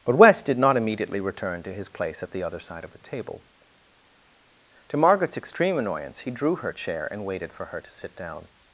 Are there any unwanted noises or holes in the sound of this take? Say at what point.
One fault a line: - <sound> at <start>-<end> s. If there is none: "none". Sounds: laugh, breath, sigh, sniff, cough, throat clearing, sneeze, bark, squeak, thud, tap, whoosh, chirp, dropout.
none